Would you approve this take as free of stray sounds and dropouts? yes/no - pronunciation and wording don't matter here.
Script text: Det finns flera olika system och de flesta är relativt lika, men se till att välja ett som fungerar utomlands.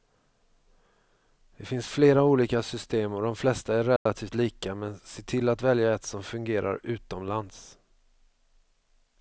no